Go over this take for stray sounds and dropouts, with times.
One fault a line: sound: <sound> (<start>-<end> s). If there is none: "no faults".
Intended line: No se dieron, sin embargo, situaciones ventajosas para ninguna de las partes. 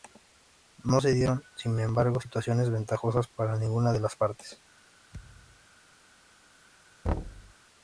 sound: thud (5.1-5.7 s)
sound: thud (7.0-7.5 s)